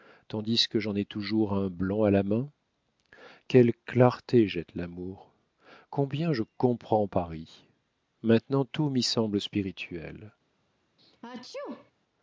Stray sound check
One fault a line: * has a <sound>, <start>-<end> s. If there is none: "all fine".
* has a sneeze, 11.0-11.9 s